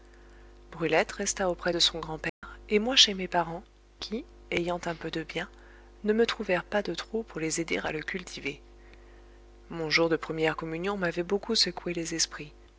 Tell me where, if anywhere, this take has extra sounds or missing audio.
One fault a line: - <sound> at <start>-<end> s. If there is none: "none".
- dropout at 2.3-2.4 s